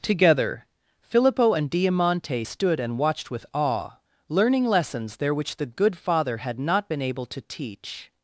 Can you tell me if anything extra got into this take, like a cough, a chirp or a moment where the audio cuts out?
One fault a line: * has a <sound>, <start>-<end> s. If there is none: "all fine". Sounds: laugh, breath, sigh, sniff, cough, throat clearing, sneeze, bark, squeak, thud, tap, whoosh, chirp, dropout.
all fine